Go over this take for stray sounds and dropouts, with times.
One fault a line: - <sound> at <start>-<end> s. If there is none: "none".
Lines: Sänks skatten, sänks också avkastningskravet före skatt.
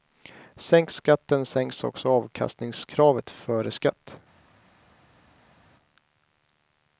none